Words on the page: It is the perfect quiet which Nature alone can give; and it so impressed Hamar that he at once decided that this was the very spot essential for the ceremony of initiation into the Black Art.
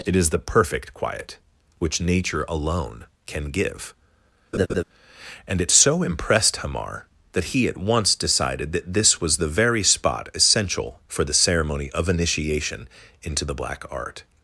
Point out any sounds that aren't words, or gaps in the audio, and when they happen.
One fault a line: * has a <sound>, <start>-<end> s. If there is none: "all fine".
* has a laugh, 4.5-4.8 s